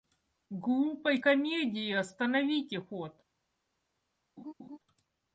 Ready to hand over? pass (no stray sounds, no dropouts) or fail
fail